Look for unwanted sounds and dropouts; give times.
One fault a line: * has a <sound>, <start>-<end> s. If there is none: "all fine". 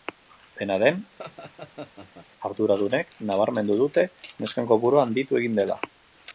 * has a laugh, 1.2-2.3 s